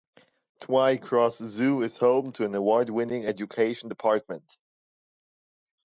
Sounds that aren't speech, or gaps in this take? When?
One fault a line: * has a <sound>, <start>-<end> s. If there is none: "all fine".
all fine